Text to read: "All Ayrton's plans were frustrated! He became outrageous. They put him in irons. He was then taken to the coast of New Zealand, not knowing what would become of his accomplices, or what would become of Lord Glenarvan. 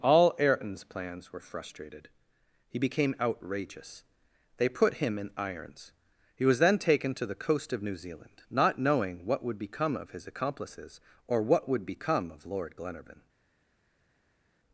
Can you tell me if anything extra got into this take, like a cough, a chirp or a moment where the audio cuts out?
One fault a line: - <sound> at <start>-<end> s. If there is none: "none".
none